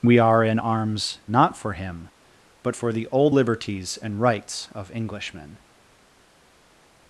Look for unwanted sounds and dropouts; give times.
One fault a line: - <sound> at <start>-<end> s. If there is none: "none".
none